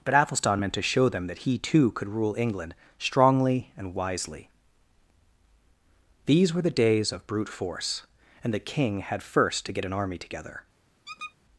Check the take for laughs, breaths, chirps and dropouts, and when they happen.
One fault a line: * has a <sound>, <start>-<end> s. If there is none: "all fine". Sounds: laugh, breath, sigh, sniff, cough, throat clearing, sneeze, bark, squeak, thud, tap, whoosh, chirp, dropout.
* has a squeak, 11.0-11.3 s